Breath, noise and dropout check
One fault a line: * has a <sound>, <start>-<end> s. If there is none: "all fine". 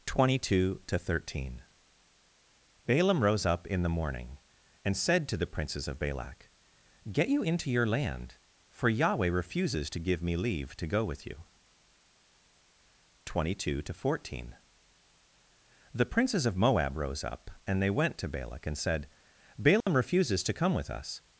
* has a dropout, 19.8-19.9 s